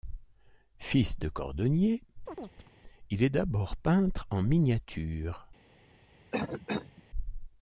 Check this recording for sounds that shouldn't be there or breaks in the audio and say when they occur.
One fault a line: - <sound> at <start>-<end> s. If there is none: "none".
- chirp at 2.3-2.7 s
- cough at 6.3-7.0 s